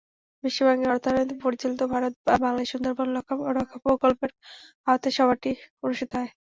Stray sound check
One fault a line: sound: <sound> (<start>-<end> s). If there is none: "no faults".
no faults